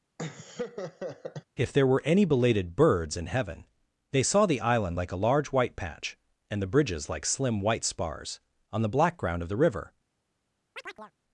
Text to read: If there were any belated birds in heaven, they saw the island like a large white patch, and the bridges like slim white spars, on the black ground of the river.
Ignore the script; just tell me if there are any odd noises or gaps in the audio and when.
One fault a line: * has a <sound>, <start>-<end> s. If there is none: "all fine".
* has a laugh, 0.2-1.4 s
* has a chirp, 10.8-11.1 s